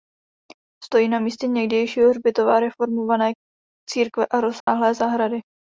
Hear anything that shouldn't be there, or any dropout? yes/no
yes